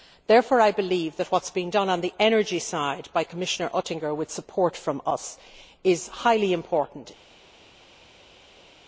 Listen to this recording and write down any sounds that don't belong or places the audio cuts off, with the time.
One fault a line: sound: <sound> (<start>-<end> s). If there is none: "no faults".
no faults